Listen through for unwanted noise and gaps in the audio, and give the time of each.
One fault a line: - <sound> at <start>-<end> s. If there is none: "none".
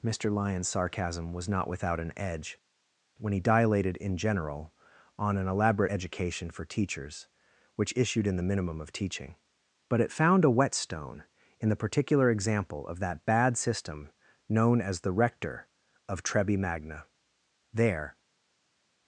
none